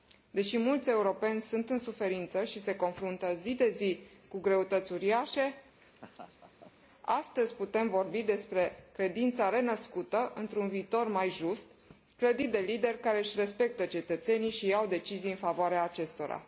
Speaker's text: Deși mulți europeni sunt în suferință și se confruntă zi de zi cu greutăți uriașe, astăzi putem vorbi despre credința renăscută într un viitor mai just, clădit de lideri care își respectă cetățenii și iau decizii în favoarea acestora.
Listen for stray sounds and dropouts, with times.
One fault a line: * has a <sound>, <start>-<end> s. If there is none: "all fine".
* has a laugh, 5.8-6.7 s